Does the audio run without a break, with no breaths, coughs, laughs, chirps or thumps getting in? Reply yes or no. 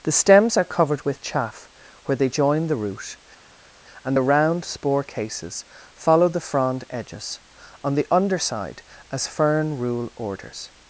yes